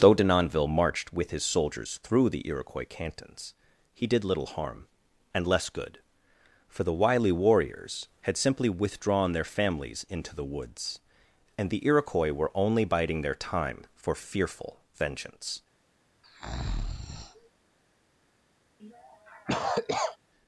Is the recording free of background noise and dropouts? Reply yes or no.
no